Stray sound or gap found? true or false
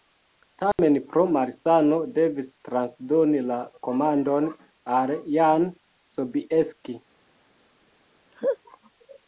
true